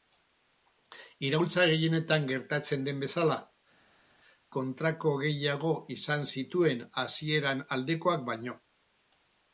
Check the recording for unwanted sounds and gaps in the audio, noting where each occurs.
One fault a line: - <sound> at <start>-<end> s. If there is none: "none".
none